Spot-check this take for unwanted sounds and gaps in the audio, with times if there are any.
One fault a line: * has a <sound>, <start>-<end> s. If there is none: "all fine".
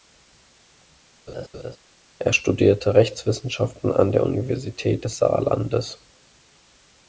* has a laugh, 1.3-1.8 s